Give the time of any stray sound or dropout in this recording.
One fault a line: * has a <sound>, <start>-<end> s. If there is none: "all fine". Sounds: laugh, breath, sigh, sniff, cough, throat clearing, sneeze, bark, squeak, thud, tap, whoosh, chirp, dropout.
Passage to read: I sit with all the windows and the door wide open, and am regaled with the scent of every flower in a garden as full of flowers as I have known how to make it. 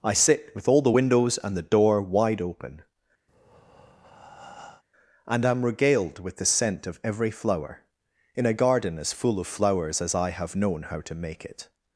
* has a breath, 3.3-4.8 s